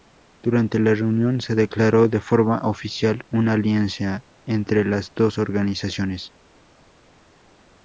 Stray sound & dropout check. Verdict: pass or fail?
pass